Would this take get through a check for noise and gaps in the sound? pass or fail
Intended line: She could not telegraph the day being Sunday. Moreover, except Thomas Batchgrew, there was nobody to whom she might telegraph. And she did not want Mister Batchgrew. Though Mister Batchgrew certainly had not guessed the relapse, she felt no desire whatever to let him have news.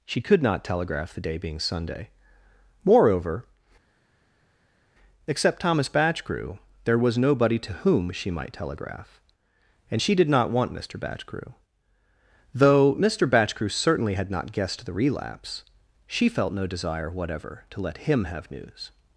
pass